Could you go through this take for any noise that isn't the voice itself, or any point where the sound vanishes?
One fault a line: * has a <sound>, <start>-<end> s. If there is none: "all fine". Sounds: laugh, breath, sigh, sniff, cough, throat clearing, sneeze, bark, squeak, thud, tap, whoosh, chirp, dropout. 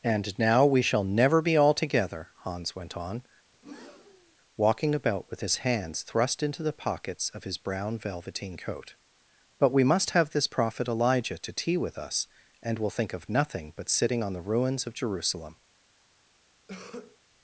* has a breath, 3.5-4.4 s
* has a cough, 16.7-17.2 s